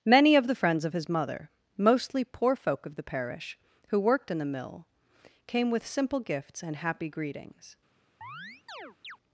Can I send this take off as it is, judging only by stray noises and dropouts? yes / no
no